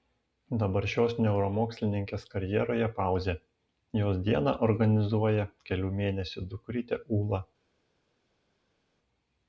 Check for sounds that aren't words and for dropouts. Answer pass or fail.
pass